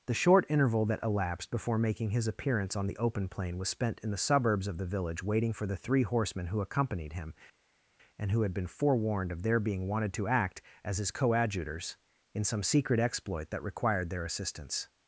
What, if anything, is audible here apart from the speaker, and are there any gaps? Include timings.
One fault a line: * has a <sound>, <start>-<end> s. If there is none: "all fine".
all fine